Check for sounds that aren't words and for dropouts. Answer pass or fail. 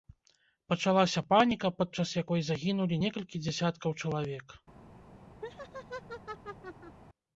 fail